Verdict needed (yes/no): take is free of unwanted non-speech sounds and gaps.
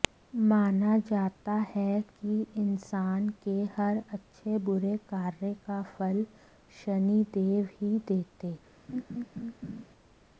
no